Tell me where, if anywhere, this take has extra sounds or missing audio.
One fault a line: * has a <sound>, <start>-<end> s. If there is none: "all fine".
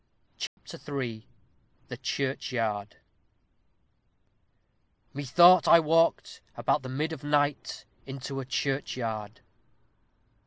* has a dropout, 0.5-0.6 s